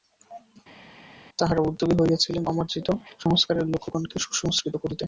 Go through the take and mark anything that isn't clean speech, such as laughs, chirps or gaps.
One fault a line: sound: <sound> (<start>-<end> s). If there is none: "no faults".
no faults